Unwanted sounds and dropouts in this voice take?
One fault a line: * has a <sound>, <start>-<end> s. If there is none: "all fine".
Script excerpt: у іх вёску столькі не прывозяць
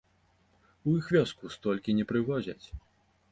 all fine